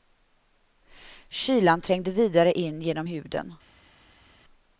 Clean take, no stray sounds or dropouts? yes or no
yes